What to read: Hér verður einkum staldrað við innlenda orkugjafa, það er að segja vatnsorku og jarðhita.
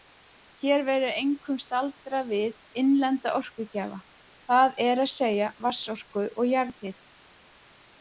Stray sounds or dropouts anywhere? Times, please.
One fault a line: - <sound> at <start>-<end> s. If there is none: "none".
none